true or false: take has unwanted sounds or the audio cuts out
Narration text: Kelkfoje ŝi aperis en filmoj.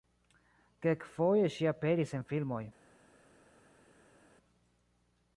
false